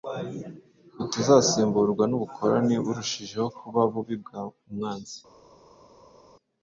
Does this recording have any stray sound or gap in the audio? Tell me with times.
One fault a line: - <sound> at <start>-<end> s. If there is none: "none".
none